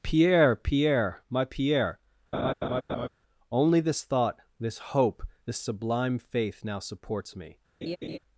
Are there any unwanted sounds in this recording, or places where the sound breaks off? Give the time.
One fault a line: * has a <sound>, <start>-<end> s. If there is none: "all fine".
* has a laugh, 2.3-3.1 s
* has a laugh, 7.8-8.2 s